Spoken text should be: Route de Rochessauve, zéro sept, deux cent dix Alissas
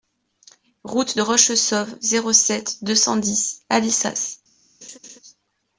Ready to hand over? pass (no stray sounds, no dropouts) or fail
fail